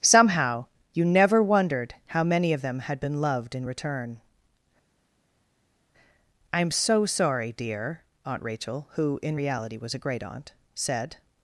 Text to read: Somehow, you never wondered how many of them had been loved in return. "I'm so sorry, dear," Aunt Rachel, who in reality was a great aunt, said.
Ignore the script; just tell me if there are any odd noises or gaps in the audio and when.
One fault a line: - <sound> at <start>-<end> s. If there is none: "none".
none